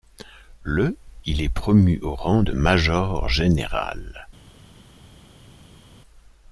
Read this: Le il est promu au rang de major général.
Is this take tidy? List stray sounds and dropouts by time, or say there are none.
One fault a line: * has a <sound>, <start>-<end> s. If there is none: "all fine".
all fine